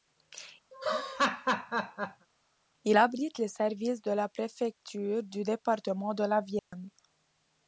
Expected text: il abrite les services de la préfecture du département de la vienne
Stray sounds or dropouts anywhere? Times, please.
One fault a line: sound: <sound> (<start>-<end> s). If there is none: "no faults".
sound: laugh (0.7-2.3 s)
sound: dropout (6.6-6.7 s)